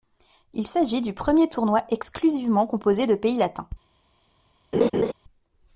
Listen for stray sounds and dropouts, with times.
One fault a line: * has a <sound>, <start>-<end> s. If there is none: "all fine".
* has a laugh, 4.7-5.1 s